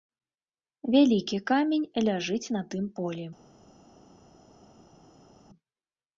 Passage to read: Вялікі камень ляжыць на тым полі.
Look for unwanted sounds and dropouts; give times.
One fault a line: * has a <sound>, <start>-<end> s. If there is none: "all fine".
all fine